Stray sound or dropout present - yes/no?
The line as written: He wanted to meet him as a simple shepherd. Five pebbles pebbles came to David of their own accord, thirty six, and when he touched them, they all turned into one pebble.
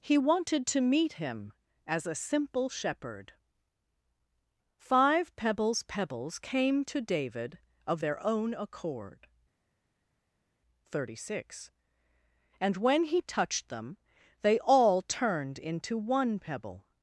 no